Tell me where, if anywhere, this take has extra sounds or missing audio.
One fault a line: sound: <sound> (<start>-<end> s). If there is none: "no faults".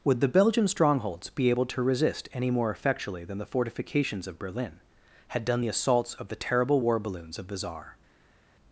no faults